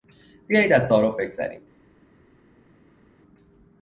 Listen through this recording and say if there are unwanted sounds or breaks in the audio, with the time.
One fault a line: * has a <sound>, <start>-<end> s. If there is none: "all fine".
all fine